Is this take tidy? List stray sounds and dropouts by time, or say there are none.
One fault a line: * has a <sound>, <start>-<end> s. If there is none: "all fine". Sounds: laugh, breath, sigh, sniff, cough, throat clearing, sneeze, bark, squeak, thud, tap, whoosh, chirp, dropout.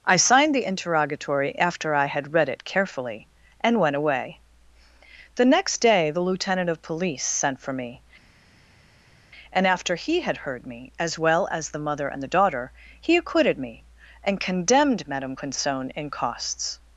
all fine